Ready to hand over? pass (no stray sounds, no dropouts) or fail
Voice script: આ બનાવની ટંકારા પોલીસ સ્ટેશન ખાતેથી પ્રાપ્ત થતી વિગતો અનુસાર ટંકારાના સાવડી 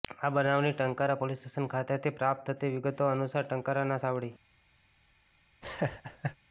fail